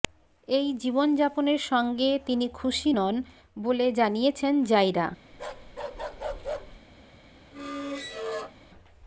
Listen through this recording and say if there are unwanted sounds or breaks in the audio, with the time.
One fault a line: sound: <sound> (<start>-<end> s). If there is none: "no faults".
sound: bark (5.3-6.8 s)
sound: squeak (7.5-8.6 s)